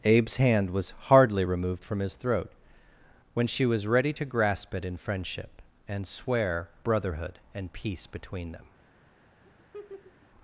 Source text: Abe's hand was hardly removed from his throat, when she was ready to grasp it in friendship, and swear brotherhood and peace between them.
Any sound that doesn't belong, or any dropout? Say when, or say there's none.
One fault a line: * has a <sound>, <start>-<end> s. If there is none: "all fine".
* has a laugh, 9.4-10.3 s